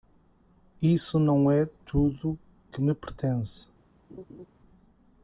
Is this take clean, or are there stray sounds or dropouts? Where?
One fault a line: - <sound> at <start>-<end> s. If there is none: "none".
- laugh at 4.1-4.5 s